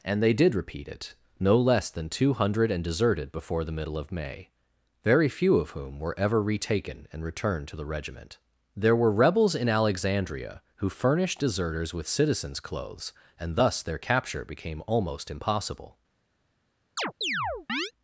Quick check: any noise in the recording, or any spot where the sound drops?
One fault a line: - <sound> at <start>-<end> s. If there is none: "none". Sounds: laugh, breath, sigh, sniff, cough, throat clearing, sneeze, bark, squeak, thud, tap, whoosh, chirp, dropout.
- chirp at 17.0-17.9 s